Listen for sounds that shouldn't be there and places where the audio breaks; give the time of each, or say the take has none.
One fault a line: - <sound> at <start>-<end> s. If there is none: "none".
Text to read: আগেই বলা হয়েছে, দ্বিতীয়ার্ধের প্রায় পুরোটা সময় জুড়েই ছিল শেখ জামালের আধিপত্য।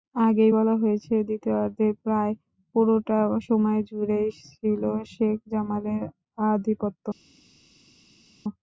none